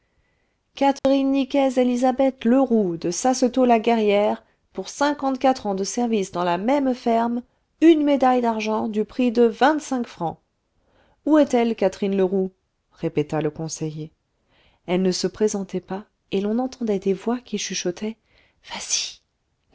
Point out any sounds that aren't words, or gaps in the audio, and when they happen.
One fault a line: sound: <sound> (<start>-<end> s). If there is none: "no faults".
sound: dropout (1.0-1.0 s)